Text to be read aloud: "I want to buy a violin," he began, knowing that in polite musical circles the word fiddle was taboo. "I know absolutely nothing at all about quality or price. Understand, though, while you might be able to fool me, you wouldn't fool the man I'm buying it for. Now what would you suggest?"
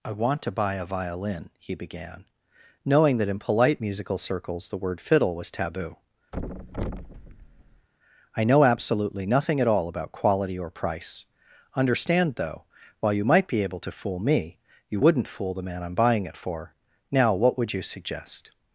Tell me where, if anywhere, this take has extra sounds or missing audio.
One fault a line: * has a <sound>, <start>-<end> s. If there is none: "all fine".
* has a thud, 6.3-7.9 s